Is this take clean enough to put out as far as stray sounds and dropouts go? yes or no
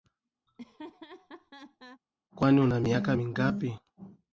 no